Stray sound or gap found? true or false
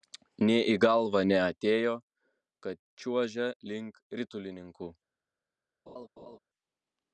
true